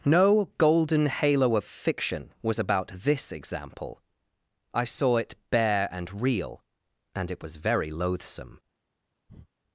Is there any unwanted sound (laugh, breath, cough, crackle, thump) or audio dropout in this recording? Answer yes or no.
yes